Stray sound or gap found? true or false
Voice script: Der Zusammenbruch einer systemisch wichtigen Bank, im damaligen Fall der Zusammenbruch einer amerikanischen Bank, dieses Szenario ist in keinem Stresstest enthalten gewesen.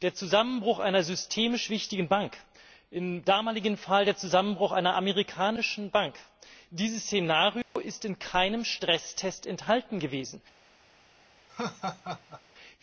true